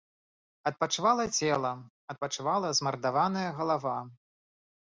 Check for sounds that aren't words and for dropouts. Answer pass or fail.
pass